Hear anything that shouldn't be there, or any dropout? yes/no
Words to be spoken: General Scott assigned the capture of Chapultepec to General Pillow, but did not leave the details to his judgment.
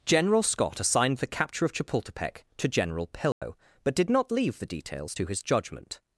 yes